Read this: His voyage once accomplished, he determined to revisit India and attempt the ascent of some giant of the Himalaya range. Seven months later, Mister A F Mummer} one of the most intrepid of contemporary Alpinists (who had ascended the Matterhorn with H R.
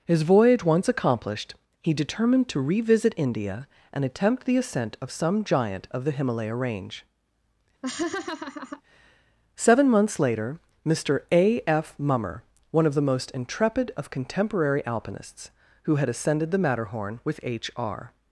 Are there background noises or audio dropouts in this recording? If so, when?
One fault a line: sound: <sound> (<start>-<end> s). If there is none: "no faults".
sound: laugh (7.8-8.8 s)